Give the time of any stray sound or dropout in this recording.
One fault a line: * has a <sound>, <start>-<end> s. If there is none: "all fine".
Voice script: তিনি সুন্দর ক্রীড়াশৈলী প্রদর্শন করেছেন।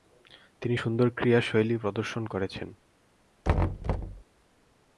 * has a thud, 3.4-4.2 s